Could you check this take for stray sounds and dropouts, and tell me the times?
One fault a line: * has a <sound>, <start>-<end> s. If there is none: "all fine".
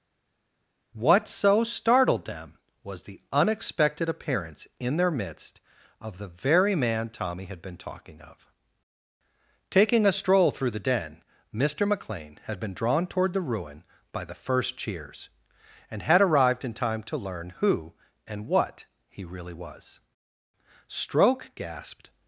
all fine